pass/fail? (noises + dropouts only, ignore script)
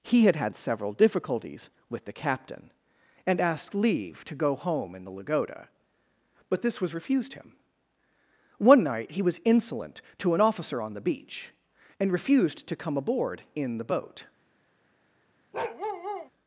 fail